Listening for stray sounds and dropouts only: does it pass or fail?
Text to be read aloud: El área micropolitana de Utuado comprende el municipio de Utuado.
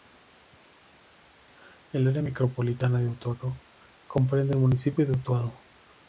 pass